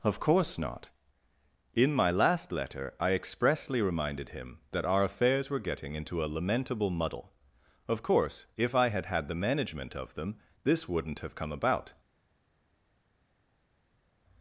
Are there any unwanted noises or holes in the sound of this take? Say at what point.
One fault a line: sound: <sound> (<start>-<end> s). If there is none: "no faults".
no faults